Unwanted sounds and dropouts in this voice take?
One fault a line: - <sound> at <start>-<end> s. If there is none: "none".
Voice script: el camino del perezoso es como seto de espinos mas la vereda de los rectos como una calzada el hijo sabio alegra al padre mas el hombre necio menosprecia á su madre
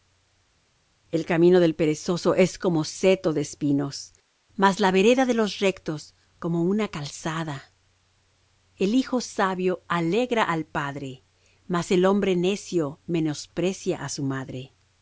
none